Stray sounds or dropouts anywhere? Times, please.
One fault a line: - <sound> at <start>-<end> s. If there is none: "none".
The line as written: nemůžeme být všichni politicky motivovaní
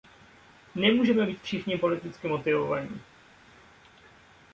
none